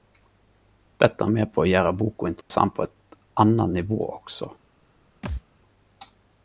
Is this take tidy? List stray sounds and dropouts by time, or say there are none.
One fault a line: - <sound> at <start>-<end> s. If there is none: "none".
- dropout at 2.4-2.5 s
- thud at 5.2-5.4 s